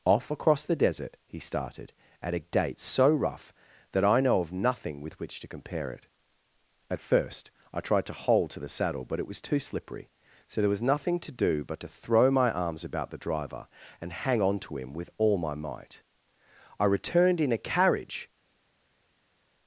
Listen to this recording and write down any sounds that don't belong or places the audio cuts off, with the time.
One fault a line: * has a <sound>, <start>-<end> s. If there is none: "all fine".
all fine